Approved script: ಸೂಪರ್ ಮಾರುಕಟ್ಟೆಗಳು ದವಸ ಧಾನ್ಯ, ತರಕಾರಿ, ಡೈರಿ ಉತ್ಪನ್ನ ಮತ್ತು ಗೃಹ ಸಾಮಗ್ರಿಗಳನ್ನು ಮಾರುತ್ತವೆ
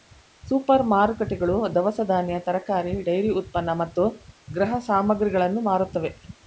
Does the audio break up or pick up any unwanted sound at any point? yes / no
no